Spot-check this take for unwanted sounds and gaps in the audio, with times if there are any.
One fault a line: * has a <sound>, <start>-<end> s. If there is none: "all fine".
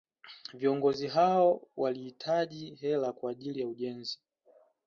all fine